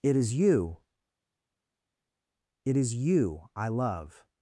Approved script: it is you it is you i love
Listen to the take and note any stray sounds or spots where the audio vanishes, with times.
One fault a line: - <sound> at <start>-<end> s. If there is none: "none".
none